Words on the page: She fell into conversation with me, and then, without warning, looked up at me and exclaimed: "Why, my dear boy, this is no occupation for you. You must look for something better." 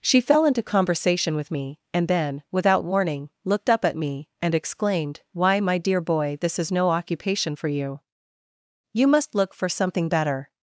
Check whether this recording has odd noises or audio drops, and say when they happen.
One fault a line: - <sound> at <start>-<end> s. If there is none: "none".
none